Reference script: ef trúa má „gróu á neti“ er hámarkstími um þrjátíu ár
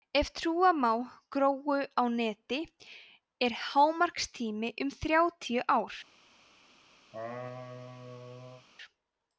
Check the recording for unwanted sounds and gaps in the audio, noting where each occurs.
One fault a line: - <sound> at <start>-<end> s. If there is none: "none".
- laugh at 7.1-8.7 s